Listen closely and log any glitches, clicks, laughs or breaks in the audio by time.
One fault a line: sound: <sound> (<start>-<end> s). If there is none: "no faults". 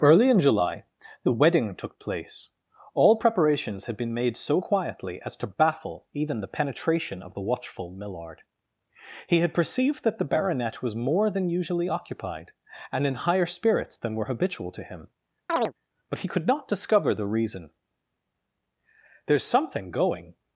sound: chirp (15.5-15.7 s)